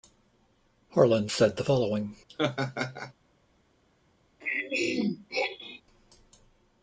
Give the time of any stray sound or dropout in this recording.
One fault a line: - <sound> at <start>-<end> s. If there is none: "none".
- laugh at 2.3-3.1 s
- throat clearing at 4.4-5.8 s